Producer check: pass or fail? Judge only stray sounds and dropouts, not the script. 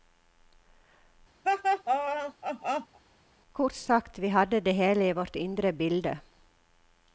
fail